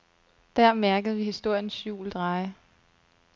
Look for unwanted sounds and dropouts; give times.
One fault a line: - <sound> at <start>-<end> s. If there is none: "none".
none